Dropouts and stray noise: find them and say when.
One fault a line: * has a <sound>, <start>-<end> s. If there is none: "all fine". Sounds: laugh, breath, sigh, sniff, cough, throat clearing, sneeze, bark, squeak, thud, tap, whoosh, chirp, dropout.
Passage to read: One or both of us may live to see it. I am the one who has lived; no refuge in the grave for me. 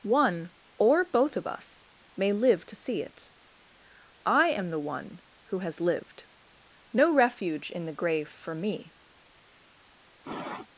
* has a sniff, 10.2-10.7 s